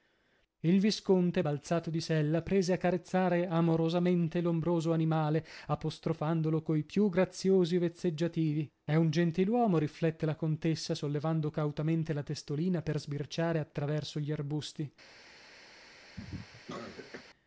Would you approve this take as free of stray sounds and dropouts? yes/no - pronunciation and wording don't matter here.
no